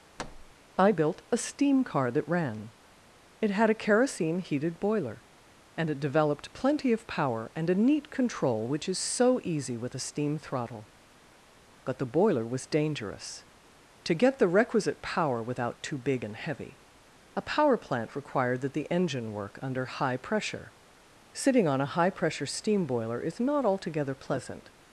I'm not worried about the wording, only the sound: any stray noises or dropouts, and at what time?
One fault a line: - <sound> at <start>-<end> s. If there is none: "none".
- thud at 0.2-0.5 s